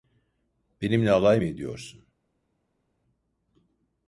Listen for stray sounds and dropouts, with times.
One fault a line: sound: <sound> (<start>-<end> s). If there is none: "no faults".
no faults